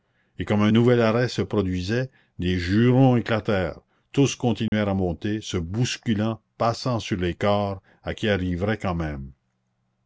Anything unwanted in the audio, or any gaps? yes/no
yes